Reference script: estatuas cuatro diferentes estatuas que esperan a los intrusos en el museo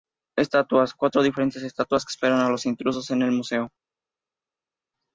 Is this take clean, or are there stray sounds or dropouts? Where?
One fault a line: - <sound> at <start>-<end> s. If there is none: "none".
none